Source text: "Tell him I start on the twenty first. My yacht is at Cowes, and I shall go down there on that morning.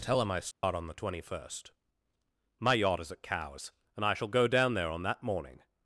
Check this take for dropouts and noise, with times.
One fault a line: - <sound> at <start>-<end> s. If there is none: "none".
- dropout at 0.5-0.6 s